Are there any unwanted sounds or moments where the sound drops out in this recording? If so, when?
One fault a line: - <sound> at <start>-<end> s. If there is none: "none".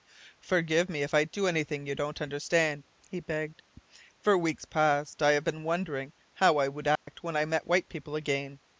- dropout at 7.0-7.1 s